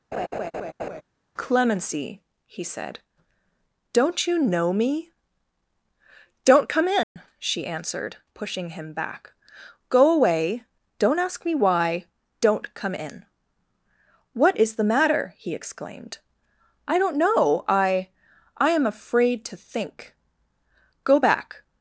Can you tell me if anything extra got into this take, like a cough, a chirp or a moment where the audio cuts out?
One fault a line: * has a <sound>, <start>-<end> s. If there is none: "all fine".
* has a laugh, 0.1-1.0 s
* has a dropout, 7.0-7.2 s